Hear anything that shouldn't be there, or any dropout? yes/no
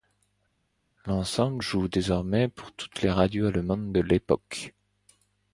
no